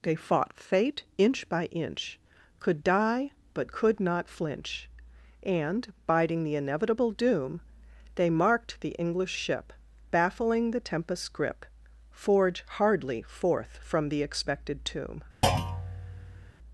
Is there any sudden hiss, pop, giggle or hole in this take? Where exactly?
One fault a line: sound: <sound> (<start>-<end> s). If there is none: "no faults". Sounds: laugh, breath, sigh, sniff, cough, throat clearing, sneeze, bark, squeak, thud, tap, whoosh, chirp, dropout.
sound: thud (15.4-16.5 s)